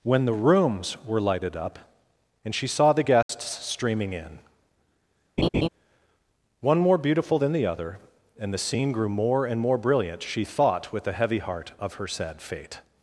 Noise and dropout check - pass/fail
fail